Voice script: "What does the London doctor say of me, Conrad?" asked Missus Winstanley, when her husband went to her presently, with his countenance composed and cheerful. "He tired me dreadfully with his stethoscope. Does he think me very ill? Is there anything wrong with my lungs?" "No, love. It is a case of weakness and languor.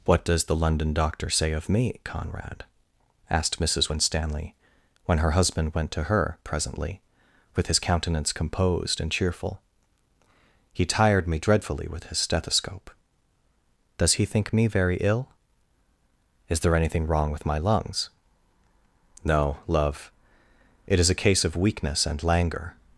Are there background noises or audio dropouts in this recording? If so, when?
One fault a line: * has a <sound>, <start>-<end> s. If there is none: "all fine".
all fine